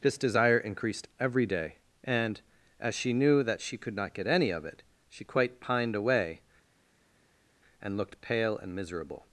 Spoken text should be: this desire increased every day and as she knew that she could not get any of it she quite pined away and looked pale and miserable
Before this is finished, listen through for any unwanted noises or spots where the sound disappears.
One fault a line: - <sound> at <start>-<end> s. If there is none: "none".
none